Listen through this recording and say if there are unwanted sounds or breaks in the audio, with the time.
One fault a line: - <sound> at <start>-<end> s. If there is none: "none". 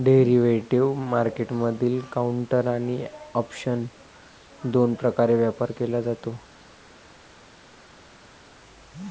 none